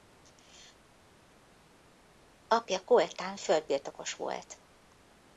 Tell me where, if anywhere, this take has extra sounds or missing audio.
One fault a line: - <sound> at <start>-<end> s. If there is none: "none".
none